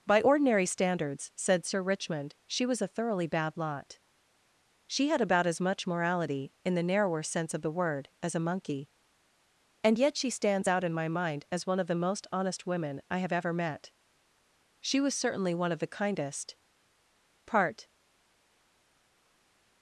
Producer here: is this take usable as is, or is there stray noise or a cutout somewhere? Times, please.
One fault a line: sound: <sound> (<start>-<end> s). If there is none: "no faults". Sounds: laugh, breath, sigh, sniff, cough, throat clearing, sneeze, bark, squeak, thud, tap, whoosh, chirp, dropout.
no faults